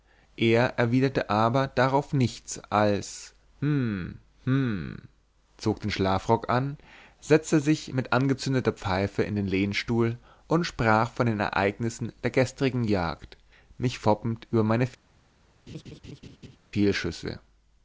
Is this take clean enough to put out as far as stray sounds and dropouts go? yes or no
no